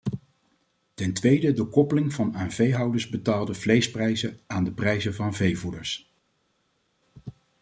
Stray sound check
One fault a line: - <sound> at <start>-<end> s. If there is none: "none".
none